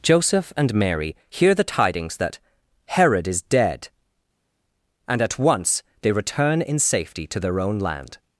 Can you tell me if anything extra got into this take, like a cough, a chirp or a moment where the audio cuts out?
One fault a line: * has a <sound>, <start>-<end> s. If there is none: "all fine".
all fine